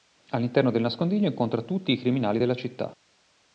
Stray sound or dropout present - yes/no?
no